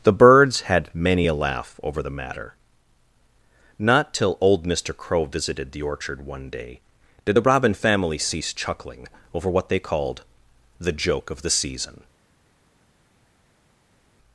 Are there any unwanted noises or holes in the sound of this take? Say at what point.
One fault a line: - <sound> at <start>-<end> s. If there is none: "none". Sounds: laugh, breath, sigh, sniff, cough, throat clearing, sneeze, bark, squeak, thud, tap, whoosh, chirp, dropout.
none